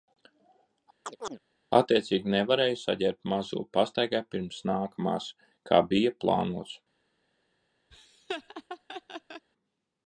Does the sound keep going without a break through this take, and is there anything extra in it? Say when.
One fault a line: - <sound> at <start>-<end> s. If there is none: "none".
- chirp at 1.0-1.4 s
- laugh at 7.9-9.5 s